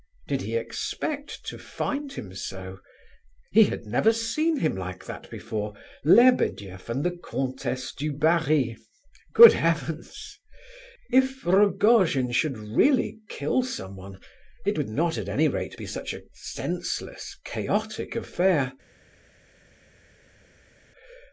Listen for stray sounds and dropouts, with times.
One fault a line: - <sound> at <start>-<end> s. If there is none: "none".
none